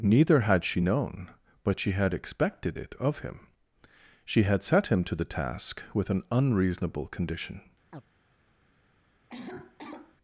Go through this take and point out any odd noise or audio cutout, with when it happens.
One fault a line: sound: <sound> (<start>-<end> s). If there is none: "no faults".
sound: chirp (7.9-8.0 s)
sound: cough (9.3-10.2 s)